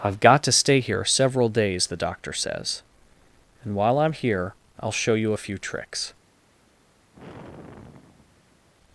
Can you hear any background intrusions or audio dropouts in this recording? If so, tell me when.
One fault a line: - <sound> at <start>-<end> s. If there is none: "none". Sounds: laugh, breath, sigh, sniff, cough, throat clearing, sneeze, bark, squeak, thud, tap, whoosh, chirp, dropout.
- sigh at 7.1-8.7 s